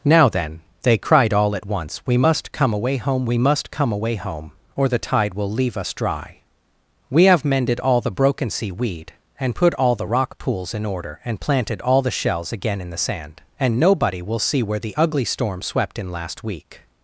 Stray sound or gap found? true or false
false